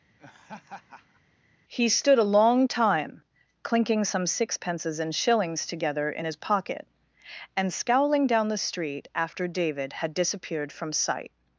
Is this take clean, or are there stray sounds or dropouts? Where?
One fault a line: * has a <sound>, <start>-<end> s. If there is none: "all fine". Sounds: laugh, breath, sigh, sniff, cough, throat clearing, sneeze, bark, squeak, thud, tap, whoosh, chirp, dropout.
* has a laugh, 0.2-1.2 s